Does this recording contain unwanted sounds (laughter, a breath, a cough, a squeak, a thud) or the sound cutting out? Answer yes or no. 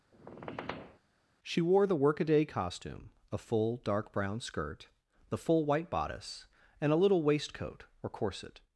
yes